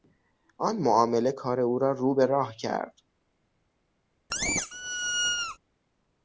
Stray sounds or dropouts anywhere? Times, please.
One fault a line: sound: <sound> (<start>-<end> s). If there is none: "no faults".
sound: squeak (4.3-5.6 s)